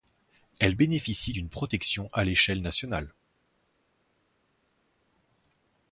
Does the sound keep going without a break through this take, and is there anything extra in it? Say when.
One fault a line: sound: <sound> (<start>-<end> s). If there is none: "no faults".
no faults